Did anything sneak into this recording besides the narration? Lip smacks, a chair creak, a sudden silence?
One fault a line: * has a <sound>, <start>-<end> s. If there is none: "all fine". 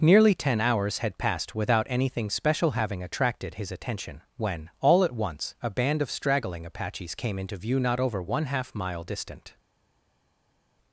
all fine